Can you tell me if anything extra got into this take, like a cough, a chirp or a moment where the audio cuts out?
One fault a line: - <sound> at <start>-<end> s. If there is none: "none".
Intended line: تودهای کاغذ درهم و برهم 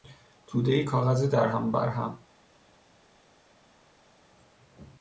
none